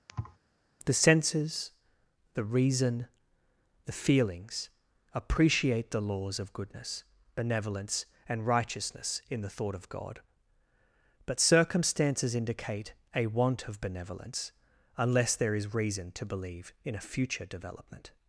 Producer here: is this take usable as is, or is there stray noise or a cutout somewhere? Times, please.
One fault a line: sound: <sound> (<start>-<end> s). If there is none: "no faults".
sound: thud (0.1-0.4 s)